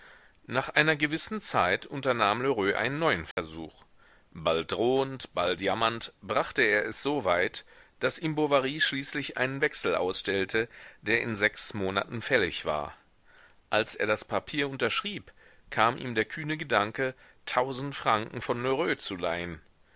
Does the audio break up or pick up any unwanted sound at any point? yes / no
yes